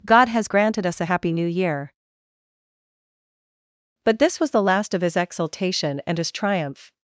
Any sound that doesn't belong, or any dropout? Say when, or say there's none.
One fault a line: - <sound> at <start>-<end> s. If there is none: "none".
none